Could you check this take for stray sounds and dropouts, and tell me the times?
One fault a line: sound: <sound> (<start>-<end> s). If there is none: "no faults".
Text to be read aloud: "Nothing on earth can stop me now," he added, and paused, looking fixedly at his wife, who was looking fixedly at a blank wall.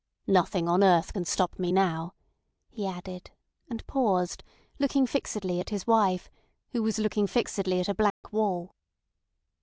sound: dropout (8.1-8.2 s)